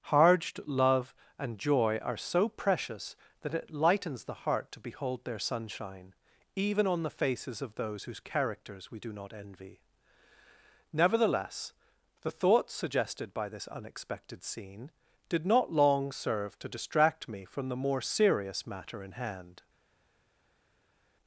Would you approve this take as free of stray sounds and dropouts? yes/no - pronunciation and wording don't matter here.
yes